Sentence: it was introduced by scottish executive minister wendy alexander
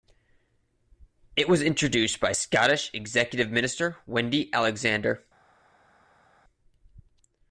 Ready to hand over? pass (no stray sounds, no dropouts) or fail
pass